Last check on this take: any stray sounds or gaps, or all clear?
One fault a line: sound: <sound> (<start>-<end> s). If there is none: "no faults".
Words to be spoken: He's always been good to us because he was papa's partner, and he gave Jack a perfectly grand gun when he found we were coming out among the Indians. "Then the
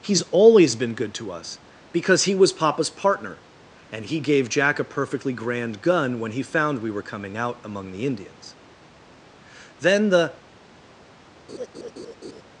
sound: laugh (11.5-12.4 s)